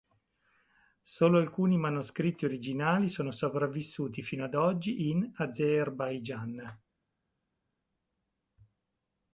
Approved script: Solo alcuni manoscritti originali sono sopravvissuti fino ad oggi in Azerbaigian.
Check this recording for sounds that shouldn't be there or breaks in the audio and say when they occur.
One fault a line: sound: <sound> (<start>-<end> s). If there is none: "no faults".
no faults